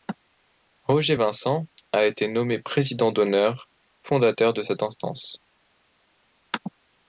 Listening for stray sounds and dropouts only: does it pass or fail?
pass